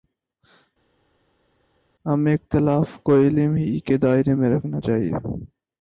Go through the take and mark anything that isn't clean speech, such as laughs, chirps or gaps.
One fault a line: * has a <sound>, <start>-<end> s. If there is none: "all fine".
all fine